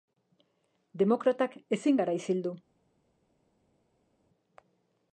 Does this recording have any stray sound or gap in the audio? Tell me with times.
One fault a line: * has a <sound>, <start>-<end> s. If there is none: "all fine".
all fine